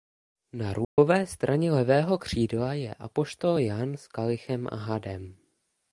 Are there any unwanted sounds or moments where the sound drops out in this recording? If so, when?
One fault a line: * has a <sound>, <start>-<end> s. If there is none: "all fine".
* has a dropout, 0.8-1.0 s